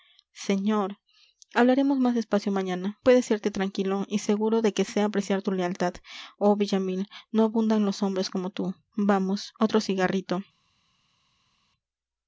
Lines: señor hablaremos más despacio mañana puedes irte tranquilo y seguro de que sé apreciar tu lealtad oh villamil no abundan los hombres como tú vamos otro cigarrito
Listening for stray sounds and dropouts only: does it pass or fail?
pass